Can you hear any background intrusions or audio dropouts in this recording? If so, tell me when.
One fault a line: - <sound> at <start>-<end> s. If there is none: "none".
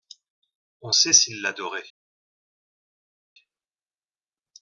none